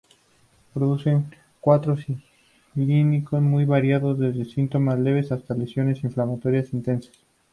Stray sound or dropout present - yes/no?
no